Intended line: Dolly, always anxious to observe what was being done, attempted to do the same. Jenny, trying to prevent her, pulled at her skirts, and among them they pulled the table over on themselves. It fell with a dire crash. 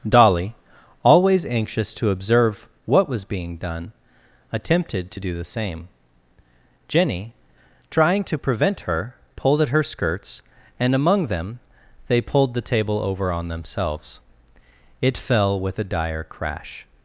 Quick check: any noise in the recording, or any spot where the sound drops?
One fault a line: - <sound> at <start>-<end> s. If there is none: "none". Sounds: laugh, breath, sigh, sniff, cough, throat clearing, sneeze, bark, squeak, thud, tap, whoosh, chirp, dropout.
none